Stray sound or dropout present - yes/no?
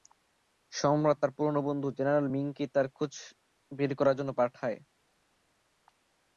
no